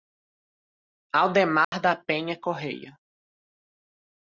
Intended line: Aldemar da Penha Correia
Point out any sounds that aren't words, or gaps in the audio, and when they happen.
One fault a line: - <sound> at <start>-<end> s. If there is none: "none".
- dropout at 1.6-1.7 s